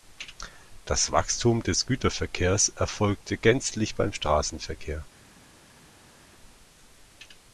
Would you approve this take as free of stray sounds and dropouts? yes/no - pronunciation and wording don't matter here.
yes